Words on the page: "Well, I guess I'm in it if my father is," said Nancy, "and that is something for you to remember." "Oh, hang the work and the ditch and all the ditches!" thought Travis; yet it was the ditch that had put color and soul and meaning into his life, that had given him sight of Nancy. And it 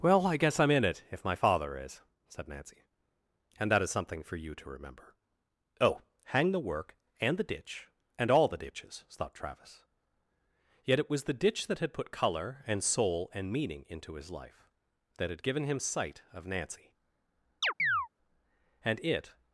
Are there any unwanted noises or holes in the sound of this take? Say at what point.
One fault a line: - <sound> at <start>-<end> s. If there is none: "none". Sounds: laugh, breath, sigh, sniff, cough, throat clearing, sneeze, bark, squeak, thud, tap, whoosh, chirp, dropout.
- chirp at 17.6-18.1 s